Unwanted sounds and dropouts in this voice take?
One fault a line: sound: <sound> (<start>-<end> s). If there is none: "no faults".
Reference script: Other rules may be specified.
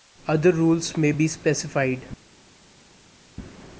no faults